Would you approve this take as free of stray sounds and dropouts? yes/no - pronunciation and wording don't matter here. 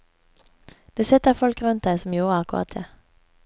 yes